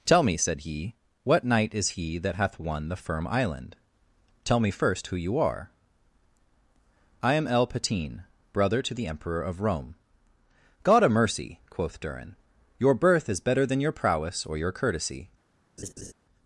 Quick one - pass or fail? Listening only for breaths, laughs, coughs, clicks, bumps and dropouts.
fail